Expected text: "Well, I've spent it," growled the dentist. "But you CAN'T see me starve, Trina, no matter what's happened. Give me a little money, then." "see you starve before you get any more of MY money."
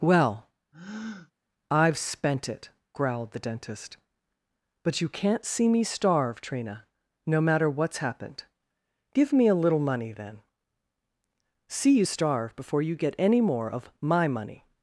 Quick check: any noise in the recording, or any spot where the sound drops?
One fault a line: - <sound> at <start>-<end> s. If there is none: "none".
- breath at 0.7-1.3 s